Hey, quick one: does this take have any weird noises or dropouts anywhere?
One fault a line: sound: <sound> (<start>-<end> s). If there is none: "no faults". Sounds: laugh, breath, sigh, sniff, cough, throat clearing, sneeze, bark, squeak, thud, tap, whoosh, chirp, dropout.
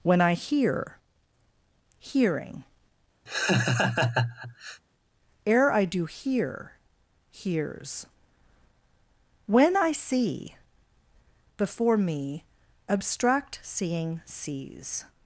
sound: laugh (3.3-4.8 s)